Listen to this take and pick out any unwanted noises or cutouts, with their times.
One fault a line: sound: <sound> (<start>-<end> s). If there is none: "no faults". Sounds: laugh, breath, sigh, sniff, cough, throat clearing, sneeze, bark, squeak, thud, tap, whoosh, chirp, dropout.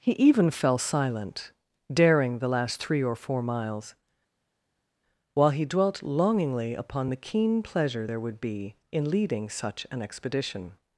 no faults